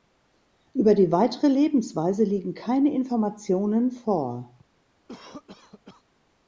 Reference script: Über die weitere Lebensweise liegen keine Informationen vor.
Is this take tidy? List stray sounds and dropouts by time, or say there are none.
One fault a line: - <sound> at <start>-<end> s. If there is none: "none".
- cough at 5.1-6.0 s